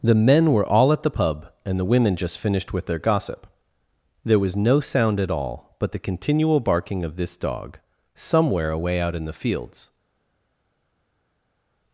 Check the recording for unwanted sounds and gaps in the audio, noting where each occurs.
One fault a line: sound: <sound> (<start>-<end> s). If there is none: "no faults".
no faults